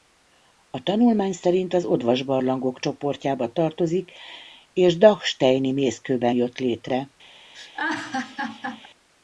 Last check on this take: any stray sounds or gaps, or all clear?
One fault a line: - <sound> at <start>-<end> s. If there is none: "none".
- laugh at 7.5-8.9 s